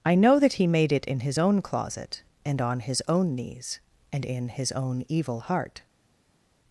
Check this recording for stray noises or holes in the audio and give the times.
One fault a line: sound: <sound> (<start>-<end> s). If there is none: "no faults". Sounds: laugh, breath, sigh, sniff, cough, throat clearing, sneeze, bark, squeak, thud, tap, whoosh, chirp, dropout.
no faults